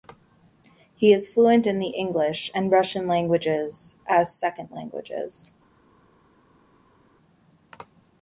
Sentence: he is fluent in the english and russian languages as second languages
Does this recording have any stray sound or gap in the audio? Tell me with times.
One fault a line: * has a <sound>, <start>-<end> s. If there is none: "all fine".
all fine